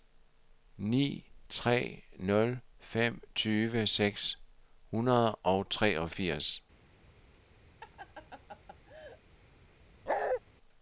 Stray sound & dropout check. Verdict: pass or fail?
fail